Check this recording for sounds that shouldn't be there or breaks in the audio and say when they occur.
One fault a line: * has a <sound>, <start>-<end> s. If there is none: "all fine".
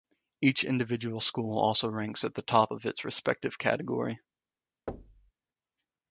* has a thud, 4.9-5.3 s